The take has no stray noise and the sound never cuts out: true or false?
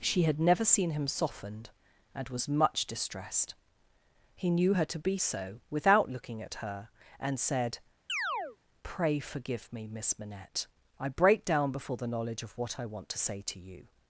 false